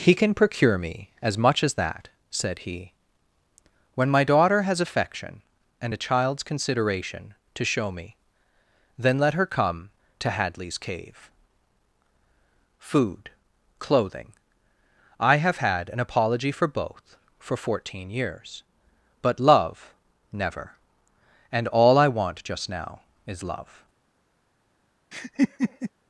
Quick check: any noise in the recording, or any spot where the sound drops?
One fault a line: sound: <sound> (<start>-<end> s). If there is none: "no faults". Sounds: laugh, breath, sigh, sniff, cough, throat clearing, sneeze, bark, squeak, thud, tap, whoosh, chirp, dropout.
sound: laugh (25.1-25.9 s)